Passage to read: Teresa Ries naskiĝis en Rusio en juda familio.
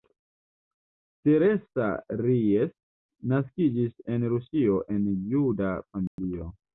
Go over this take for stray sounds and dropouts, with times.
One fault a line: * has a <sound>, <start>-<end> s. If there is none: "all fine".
* has a dropout, 6.1-6.2 s